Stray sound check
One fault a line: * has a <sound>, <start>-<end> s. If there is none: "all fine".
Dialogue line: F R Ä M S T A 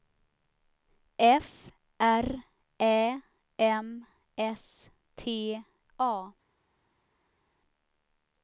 all fine